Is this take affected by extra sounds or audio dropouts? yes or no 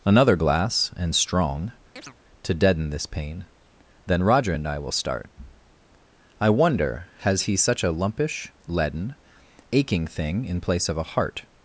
yes